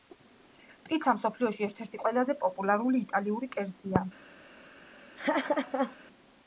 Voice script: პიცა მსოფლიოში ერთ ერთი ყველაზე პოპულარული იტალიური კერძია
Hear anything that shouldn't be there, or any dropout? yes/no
yes